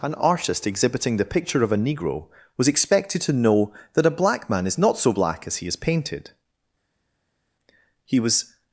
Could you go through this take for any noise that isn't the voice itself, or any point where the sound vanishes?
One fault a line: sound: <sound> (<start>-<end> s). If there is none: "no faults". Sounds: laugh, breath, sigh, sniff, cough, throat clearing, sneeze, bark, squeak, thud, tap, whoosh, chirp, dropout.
no faults